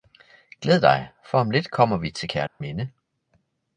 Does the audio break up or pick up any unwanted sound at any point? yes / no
yes